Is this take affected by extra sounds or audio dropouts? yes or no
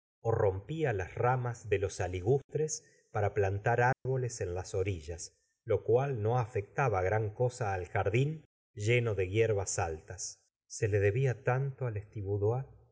yes